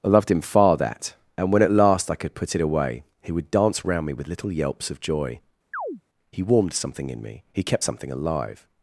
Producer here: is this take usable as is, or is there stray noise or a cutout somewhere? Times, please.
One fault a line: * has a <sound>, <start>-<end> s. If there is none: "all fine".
* has a chirp, 5.7-6.0 s